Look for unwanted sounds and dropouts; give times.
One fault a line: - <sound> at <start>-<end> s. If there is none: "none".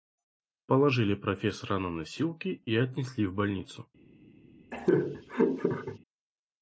- laugh at 4.7-6.0 s